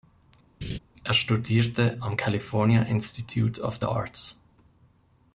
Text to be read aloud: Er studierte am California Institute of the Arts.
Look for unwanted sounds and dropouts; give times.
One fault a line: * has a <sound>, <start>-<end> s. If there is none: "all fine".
* has a laugh, 0.6-0.8 s